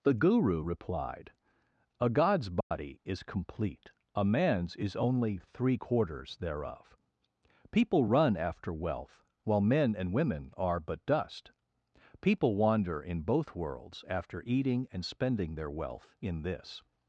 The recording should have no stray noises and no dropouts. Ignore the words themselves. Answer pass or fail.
fail